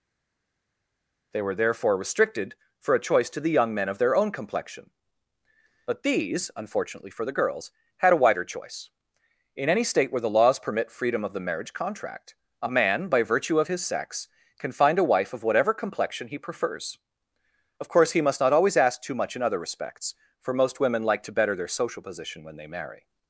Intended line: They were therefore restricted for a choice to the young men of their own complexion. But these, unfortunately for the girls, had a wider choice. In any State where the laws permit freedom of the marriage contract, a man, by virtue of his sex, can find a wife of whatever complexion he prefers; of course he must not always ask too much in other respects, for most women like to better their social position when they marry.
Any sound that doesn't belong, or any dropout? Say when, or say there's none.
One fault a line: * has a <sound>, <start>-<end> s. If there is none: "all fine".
all fine